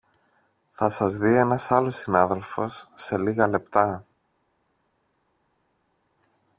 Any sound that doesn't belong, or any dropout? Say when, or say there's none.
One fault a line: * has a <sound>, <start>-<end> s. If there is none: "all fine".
all fine